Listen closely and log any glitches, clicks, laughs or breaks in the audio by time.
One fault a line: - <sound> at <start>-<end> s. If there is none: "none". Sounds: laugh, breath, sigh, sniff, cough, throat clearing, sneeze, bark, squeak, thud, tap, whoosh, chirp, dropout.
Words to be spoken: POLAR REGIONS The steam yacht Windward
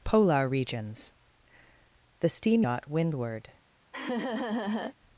- laugh at 3.9-5.0 s